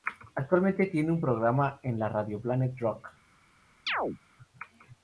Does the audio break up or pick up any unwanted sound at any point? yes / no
yes